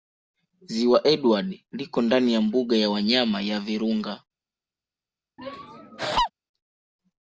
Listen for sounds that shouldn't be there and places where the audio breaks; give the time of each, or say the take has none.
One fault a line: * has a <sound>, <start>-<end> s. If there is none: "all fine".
* has a laugh, 5.4-6.3 s